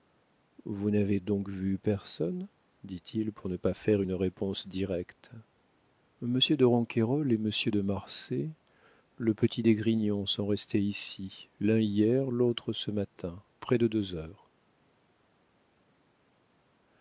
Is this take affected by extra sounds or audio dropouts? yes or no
no